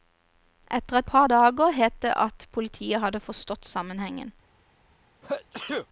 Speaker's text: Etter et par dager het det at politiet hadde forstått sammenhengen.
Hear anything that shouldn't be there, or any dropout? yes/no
yes